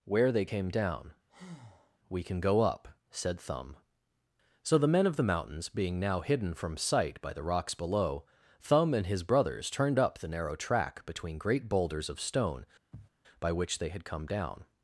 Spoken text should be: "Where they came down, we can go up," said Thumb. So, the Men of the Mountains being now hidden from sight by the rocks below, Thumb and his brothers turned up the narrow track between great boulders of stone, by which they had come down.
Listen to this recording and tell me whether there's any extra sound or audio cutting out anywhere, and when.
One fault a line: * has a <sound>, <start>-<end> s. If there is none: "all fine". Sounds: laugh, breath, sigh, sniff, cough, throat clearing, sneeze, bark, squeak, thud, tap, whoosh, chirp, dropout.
* has a breath, 1.3-2.0 s
* has a sniff, 12.9-13.1 s